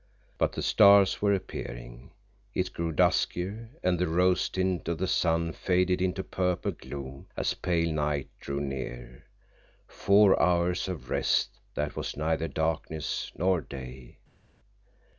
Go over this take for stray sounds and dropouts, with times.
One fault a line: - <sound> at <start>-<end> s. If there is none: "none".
none